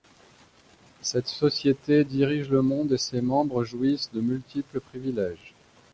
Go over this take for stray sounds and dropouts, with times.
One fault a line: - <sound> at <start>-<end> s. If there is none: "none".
none